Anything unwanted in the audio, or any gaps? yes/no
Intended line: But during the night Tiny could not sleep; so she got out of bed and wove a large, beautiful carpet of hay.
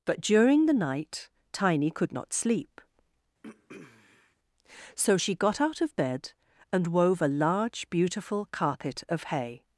yes